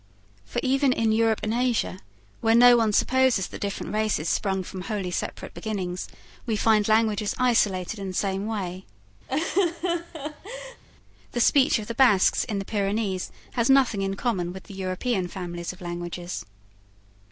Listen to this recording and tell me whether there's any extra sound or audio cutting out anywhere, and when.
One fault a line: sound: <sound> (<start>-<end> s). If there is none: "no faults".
sound: laugh (9.3-10.8 s)